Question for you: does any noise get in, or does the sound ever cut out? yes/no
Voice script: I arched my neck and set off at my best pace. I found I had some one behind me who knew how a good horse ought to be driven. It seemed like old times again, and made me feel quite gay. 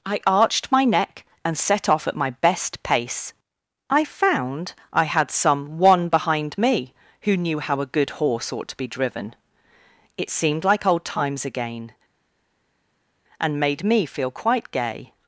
no